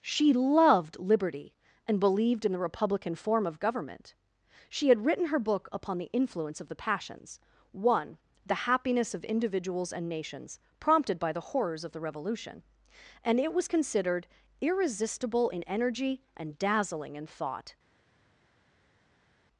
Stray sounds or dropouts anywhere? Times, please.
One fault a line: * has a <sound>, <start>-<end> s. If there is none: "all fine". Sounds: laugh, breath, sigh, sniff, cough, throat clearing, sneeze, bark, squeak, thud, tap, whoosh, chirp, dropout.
all fine